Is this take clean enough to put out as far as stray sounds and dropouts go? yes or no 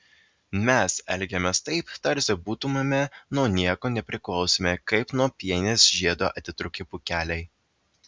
yes